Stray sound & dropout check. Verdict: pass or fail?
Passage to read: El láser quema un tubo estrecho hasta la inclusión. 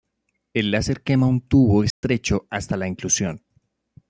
fail